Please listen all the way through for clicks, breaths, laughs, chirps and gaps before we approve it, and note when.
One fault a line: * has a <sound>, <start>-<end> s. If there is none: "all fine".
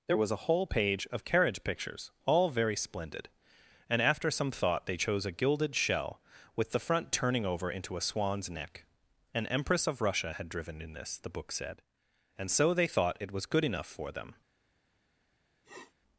* has a sniff, 15.6-15.9 s